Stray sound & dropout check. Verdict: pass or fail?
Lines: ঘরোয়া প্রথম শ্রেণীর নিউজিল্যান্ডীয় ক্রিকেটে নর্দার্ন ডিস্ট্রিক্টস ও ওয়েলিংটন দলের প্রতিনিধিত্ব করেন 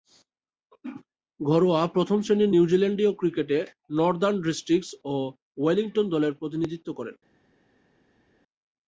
pass